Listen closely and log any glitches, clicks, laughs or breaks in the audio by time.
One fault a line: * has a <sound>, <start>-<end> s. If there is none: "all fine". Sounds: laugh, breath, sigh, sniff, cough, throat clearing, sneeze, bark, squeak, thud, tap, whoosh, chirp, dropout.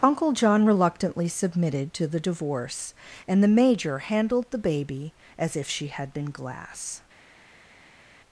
all fine